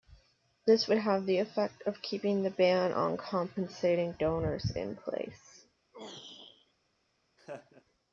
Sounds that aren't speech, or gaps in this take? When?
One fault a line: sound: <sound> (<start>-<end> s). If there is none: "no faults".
sound: throat clearing (5.9-6.7 s)
sound: laugh (7.4-7.8 s)